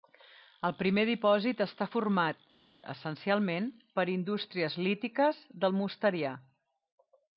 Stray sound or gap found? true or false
false